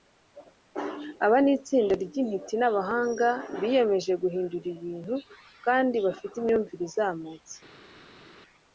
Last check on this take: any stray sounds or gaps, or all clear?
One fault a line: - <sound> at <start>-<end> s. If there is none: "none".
none